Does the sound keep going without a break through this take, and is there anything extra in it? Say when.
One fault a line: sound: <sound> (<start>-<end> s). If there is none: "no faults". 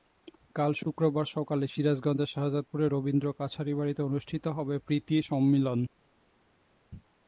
no faults